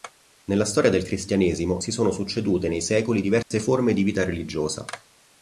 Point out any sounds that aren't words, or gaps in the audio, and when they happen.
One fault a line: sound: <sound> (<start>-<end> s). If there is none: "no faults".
sound: dropout (3.4-3.5 s)